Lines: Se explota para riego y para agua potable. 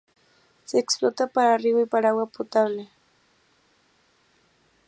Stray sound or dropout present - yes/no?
no